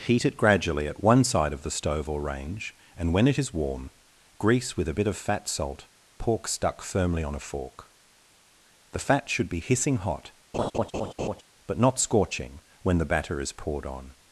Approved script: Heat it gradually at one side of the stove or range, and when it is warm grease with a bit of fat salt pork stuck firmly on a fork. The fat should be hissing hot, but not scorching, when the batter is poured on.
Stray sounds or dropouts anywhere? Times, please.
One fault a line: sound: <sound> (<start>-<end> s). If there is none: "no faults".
sound: laugh (10.5-11.4 s)